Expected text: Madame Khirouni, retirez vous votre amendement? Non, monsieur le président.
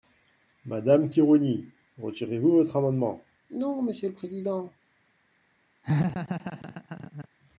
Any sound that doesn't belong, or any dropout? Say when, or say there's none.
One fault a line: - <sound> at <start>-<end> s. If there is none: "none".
- laugh at 5.8-7.3 s